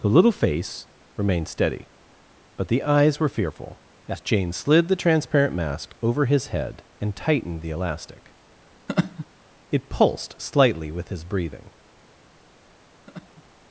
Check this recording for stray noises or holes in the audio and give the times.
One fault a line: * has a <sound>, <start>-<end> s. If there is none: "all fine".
* has a laugh, 8.9-9.3 s
* has a laugh, 13.1-13.4 s